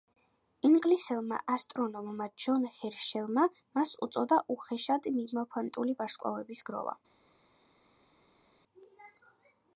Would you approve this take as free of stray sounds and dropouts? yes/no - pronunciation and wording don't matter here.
yes